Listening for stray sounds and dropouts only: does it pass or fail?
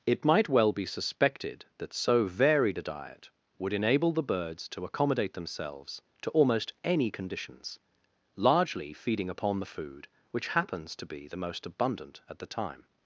pass